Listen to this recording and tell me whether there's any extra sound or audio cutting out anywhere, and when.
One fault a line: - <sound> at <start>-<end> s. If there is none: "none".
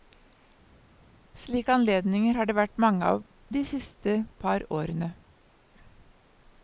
none